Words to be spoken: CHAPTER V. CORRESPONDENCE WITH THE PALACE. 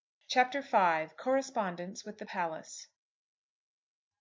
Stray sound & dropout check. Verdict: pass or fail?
pass